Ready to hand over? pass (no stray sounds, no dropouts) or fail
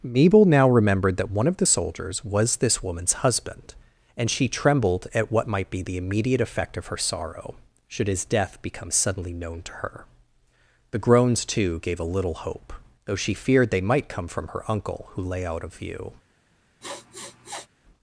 fail